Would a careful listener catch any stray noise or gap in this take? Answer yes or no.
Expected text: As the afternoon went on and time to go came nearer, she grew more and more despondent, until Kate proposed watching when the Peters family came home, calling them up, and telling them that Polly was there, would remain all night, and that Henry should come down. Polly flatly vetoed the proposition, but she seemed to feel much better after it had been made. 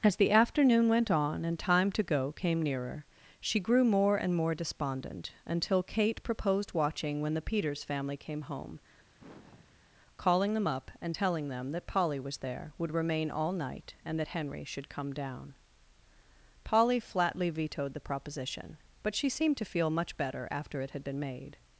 yes